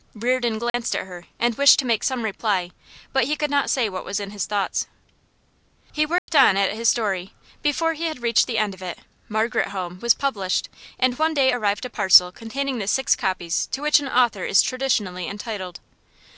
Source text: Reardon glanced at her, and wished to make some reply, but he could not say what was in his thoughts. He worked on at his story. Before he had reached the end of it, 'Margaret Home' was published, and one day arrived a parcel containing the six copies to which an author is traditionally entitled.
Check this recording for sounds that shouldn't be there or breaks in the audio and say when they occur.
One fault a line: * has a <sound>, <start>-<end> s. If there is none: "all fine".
* has a dropout, 0.7-0.7 s
* has a dropout, 6.2-6.3 s